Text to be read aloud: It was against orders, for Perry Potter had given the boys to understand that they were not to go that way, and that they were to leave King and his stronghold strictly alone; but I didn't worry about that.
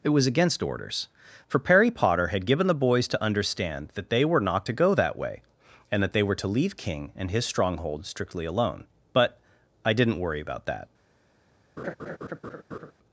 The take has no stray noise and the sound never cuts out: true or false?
false